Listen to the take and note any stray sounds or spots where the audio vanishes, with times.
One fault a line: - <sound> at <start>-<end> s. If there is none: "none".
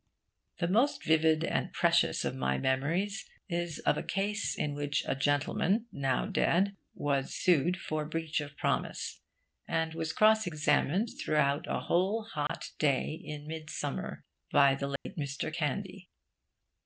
- dropout at 12.5-12.5 s
- dropout at 15.0-15.1 s